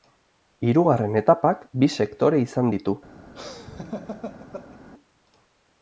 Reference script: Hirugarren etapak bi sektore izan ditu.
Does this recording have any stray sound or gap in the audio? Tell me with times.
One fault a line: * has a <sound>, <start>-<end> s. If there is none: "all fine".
* has a laugh, 3.3-4.8 s